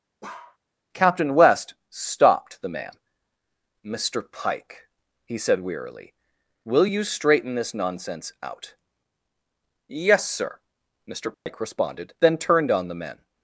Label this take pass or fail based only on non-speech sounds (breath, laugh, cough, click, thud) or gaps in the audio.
fail